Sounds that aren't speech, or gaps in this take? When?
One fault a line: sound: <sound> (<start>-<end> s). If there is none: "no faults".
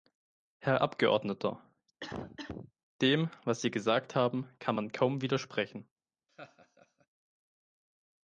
sound: cough (2.0-2.7 s)
sound: laugh (6.3-7.1 s)